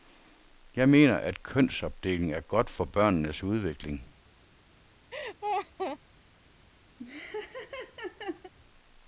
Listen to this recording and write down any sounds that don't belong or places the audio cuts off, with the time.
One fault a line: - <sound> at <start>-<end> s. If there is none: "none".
- laugh at 5.1-6.0 s
- laugh at 7.0-8.5 s